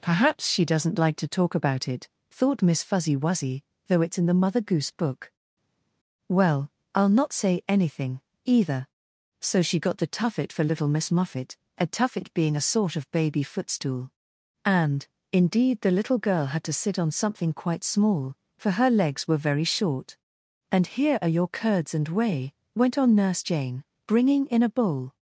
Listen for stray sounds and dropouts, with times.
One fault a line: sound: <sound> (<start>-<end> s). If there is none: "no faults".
no faults